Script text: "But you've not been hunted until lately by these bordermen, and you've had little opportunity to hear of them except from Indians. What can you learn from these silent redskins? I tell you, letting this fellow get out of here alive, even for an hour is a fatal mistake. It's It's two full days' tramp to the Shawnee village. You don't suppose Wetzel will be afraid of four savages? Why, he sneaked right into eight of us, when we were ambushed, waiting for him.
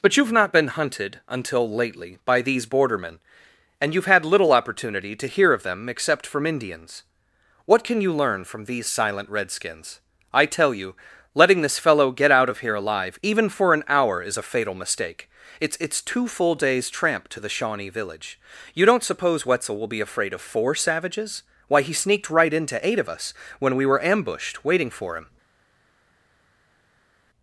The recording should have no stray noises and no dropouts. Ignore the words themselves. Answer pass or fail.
pass